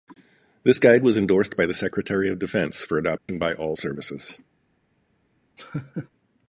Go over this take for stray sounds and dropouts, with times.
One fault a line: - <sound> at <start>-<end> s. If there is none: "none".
- dropout at 3.2-3.3 s
- laugh at 5.6-6.1 s